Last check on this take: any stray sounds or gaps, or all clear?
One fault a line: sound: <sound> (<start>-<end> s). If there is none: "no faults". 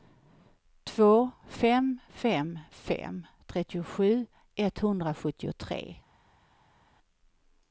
no faults